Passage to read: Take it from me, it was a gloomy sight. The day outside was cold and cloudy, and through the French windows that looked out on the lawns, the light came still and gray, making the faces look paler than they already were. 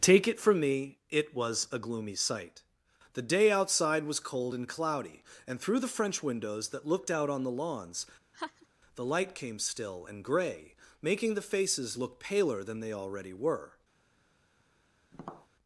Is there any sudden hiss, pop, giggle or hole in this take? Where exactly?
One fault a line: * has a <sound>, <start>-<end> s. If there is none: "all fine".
* has a laugh, 8.3-8.7 s
* has a tap, 15.1-15.5 s